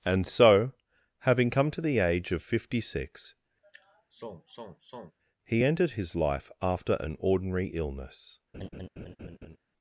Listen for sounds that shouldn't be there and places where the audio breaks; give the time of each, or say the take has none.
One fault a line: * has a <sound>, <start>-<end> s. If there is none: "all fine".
* has a sigh, 3.6-5.2 s
* has a laugh, 8.5-9.6 s